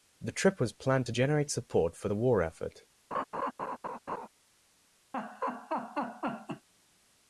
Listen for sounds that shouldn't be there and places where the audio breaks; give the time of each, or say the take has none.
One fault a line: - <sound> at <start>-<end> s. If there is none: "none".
- laugh at 3.1-4.3 s
- laugh at 5.1-6.7 s